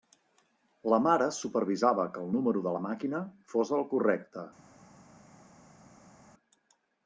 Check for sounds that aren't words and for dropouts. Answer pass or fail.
pass